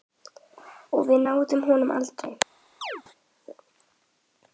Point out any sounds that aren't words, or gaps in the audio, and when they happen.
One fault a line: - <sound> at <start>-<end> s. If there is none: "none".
- chirp at 2.8-3.0 s